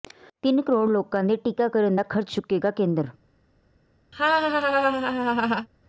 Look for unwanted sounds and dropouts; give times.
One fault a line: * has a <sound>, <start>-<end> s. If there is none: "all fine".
* has a laugh, 4.1-5.7 s